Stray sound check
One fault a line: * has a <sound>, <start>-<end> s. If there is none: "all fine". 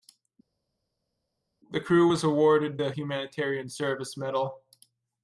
all fine